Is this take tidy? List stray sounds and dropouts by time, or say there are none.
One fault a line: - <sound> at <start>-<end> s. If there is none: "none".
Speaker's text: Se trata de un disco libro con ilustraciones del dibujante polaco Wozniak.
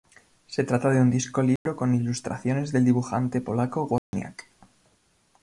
- dropout at 1.6-1.7 s
- dropout at 4.0-4.1 s